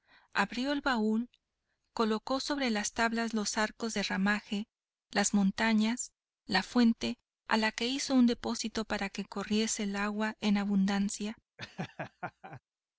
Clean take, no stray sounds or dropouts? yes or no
no